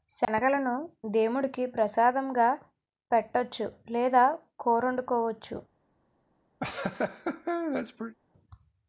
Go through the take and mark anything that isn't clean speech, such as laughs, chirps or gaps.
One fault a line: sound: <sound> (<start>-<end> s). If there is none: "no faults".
sound: laugh (6.6-8.2 s)